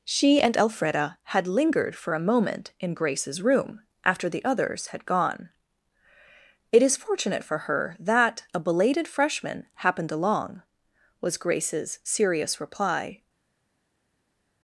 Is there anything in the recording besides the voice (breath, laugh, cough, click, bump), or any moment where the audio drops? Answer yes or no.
no